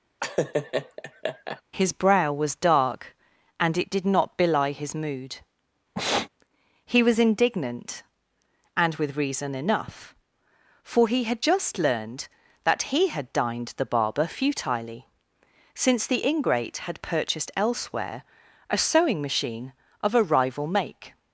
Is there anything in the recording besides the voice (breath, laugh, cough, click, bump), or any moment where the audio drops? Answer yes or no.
yes